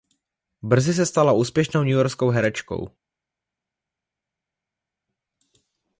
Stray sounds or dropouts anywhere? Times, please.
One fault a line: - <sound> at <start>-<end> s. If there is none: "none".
none